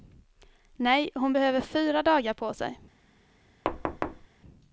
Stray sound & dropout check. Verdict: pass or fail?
fail